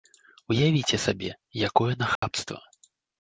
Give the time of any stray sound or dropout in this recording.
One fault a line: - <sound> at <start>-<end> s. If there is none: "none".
- dropout at 2.2-2.2 s